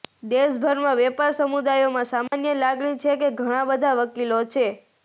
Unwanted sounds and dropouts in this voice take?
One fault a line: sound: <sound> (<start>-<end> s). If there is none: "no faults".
sound: dropout (2.3-2.3 s)